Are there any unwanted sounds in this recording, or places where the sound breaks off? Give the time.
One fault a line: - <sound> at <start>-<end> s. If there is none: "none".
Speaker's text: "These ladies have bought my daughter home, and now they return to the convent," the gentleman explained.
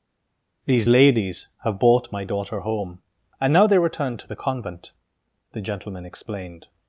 none